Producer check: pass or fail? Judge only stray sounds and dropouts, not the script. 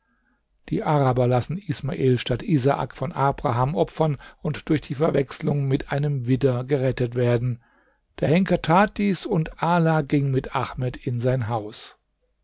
pass